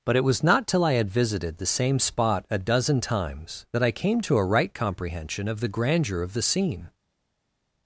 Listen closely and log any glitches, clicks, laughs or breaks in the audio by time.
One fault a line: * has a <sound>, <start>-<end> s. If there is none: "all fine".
all fine